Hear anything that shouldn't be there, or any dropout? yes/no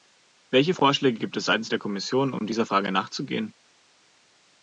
no